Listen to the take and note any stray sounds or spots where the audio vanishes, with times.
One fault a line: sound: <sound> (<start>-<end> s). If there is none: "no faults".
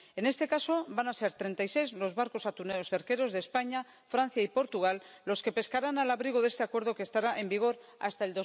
no faults